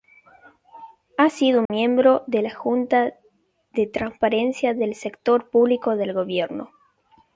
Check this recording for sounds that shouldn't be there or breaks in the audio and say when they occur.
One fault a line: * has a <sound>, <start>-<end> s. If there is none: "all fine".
* has a dropout, 1.7-1.7 s